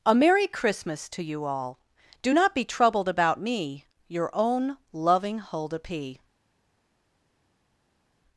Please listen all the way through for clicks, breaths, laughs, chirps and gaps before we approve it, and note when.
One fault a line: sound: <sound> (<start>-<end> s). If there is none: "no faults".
no faults